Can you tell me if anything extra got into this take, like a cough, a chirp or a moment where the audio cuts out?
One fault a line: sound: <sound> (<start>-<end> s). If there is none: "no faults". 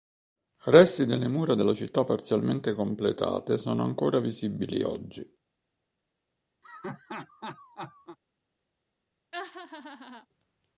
sound: laugh (6.6-8.2 s)
sound: laugh (9.3-10.3 s)